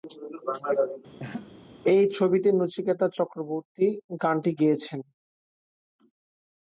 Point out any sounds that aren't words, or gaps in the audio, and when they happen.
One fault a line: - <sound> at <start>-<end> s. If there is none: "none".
- laugh at 1.2-1.5 s